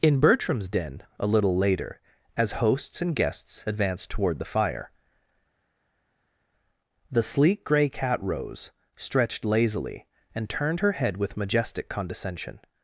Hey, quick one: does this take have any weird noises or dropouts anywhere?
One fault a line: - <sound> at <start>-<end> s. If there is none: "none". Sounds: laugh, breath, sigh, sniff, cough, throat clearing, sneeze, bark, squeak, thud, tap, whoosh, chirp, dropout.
none